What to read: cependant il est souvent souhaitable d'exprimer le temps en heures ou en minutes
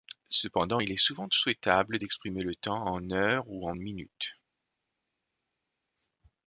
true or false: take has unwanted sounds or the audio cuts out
false